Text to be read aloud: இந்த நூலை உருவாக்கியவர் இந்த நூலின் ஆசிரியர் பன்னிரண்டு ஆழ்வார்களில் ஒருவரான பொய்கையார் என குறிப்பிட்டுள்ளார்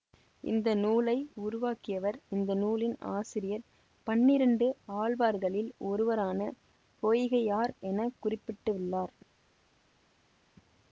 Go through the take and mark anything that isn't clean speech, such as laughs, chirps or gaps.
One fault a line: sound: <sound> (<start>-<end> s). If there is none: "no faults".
no faults